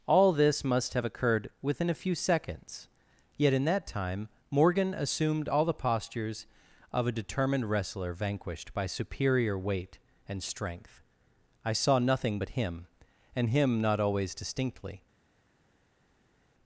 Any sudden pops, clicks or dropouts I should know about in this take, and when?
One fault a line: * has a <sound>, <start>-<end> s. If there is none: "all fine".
all fine